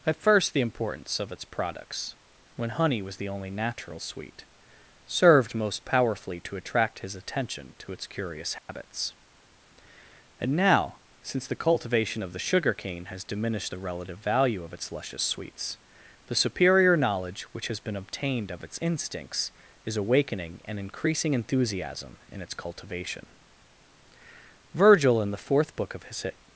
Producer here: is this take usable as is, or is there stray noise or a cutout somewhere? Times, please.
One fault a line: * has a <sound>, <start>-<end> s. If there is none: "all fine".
* has a dropout, 8.6-8.7 s